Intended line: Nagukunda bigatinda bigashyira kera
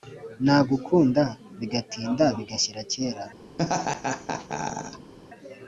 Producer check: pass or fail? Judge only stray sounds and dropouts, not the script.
fail